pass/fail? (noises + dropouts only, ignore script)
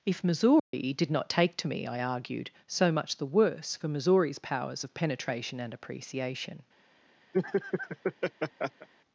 fail